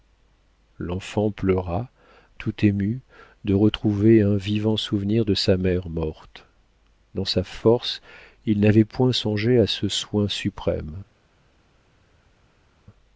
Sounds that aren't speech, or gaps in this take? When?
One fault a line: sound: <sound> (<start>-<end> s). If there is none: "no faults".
no faults